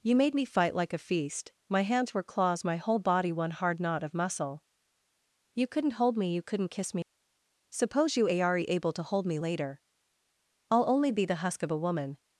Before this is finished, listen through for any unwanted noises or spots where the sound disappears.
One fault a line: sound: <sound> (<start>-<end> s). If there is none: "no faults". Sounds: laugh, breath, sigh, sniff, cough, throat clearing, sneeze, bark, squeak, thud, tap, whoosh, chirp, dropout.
no faults